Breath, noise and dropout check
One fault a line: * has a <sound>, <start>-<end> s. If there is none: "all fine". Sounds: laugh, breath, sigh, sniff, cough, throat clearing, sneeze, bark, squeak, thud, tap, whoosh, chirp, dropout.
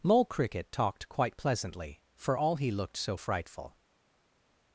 all fine